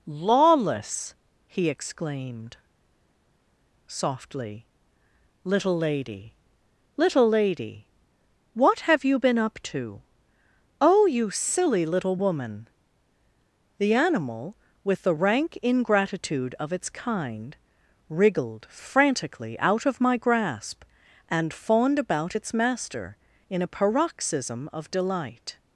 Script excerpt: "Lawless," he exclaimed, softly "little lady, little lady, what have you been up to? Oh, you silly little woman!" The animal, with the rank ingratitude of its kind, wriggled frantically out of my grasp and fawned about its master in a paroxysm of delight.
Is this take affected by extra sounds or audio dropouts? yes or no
no